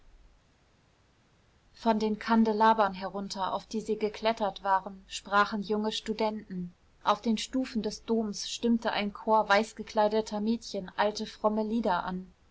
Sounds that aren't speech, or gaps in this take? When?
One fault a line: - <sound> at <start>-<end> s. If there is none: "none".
none